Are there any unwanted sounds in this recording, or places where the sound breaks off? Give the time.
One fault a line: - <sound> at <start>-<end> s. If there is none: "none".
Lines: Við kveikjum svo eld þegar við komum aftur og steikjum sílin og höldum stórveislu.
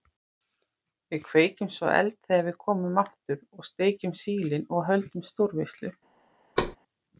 - thud at 6.6-6.8 s